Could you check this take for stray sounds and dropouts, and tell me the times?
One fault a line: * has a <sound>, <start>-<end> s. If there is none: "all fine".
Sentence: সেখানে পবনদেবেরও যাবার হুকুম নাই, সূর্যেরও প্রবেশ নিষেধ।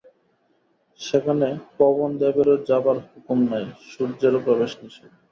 all fine